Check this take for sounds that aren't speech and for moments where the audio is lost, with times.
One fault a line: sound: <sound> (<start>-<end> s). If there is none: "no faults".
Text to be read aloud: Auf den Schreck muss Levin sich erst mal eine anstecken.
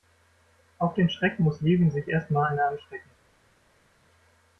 no faults